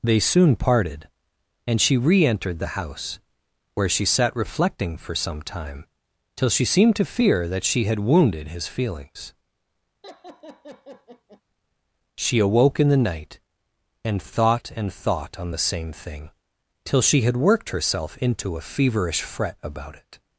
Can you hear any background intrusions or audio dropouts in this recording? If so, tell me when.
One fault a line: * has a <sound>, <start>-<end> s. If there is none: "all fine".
* has a laugh, 10.0-11.4 s